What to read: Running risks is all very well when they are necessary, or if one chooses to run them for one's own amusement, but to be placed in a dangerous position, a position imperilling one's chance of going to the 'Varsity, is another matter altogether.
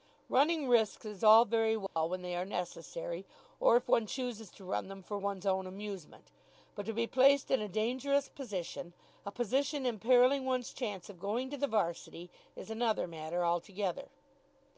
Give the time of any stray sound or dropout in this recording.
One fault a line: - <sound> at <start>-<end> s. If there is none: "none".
- dropout at 1.9-2.0 s